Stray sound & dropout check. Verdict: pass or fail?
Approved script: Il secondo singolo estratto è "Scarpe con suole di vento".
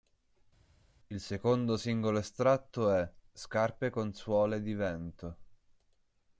pass